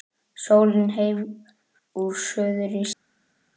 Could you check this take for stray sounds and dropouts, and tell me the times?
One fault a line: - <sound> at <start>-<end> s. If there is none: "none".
none